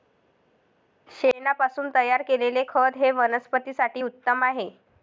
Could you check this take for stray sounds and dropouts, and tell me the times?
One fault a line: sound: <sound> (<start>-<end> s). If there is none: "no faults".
no faults